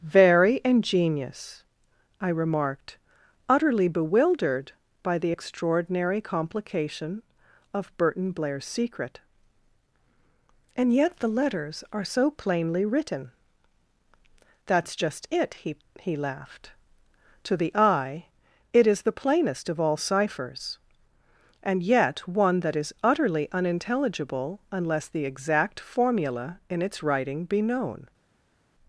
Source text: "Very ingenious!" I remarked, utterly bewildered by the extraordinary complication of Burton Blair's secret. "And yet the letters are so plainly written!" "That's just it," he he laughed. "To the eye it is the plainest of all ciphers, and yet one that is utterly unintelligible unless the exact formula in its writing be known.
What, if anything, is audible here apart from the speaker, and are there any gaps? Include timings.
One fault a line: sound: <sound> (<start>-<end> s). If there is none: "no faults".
no faults